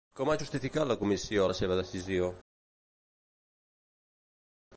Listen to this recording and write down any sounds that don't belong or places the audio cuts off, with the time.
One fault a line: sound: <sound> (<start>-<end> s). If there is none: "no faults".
no faults